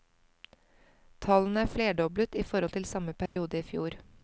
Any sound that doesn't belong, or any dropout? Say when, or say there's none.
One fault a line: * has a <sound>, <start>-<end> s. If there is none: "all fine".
* has a dropout, 3.3-3.4 s